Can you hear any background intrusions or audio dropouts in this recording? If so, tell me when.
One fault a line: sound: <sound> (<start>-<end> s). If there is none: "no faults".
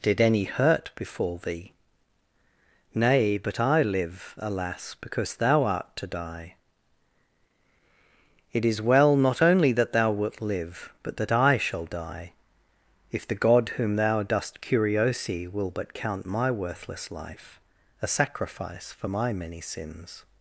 no faults